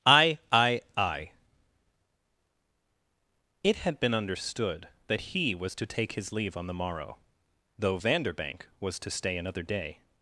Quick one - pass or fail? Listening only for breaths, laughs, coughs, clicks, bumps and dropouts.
pass